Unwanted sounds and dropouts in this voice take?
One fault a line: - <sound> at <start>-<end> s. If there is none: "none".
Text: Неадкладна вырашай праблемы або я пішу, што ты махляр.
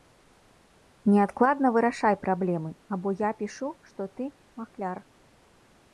none